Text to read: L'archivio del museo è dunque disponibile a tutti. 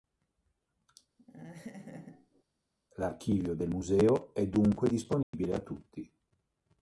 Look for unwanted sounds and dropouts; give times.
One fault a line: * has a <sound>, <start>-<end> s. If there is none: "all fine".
* has a laugh, 1.2-2.4 s
* has a dropout, 5.2-5.3 s